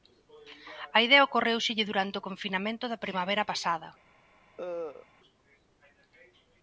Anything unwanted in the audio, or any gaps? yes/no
yes